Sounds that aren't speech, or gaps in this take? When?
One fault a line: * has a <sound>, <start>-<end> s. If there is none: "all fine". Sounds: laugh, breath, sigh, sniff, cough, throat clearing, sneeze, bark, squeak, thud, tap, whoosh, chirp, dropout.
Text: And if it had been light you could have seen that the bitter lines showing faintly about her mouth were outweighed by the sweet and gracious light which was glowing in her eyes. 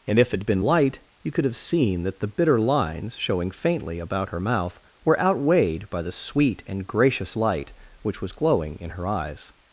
all fine